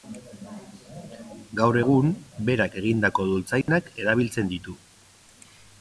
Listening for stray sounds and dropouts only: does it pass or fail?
fail